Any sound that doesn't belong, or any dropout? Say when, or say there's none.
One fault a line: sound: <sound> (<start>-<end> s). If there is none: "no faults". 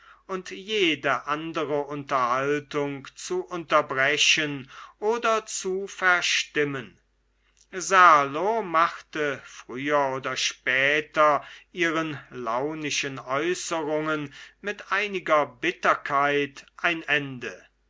no faults